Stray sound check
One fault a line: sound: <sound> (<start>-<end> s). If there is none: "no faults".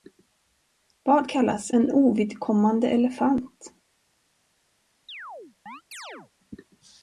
sound: chirp (5.1-6.3 s)